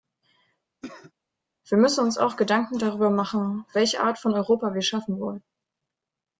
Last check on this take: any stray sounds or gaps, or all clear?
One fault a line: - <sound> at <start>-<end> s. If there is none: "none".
- cough at 0.8-1.1 s